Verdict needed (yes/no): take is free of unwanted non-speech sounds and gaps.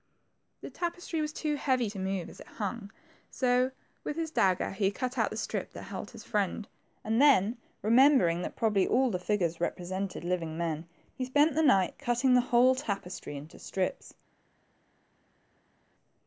yes